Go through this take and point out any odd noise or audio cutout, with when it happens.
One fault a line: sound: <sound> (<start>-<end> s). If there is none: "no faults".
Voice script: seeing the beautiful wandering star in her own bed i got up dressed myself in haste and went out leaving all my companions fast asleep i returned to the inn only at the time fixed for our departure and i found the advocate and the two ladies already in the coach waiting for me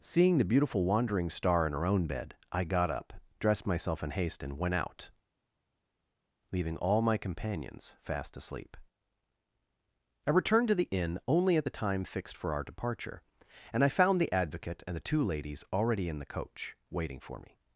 no faults